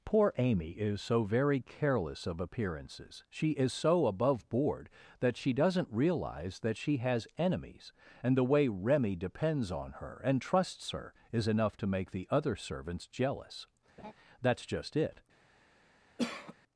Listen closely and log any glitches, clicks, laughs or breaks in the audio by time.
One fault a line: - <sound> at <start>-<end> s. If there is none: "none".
- laugh at 14.0-14.1 s
- cough at 16.2-16.6 s